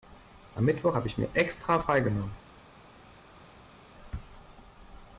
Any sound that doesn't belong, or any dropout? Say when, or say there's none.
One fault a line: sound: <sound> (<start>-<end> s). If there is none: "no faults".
no faults